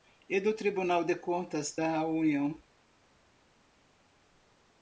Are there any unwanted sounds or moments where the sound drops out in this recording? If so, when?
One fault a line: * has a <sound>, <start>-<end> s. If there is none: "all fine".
all fine